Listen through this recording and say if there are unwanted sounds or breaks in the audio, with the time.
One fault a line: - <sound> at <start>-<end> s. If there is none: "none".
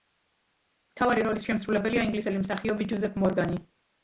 none